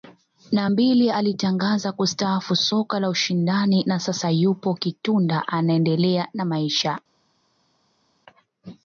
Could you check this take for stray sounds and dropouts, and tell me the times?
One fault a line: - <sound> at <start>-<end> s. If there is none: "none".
none